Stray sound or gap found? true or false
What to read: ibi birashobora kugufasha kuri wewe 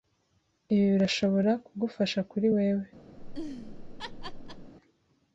true